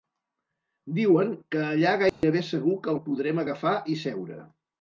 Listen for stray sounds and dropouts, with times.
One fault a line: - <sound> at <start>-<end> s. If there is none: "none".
- dropout at 2.1-2.2 s